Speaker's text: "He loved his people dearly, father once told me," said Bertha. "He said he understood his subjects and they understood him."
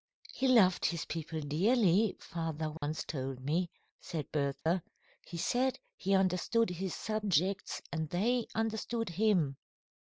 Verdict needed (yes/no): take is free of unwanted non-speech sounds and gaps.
no